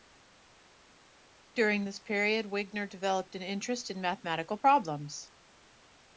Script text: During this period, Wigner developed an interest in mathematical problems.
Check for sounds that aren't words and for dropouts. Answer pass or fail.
pass